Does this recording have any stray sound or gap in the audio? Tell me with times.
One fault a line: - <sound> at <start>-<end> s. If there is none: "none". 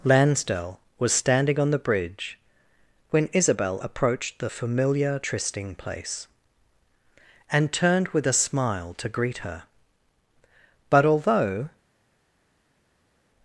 none